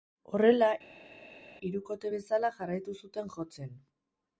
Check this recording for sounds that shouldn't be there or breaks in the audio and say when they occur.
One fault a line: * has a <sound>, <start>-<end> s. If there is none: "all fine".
all fine